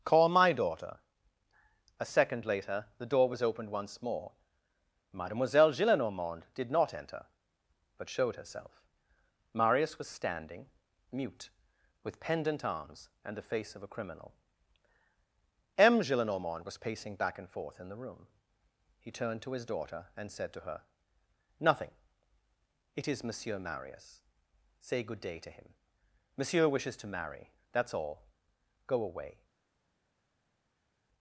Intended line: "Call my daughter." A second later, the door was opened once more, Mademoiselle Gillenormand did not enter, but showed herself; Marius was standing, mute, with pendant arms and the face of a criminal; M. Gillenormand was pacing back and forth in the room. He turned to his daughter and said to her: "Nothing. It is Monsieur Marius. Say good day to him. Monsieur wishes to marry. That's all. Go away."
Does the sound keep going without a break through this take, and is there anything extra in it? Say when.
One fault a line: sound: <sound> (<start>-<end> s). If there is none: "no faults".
no faults